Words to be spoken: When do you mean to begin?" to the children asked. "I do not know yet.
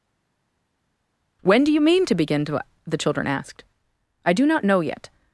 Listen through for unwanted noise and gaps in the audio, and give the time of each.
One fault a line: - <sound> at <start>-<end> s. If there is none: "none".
none